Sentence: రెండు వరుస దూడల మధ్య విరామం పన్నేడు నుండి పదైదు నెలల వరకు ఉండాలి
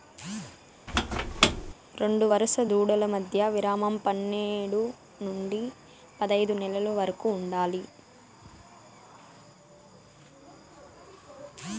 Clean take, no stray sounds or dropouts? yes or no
no